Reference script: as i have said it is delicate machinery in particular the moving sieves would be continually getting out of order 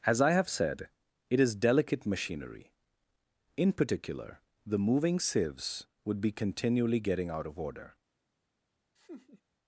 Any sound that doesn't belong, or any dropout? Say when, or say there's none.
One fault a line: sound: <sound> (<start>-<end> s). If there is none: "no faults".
sound: laugh (9.0-9.4 s)